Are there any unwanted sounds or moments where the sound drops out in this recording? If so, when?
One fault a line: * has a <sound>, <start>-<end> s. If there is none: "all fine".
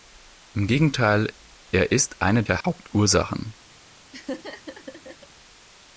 * has a dropout, 2.6-2.6 s
* has a laugh, 4.1-5.3 s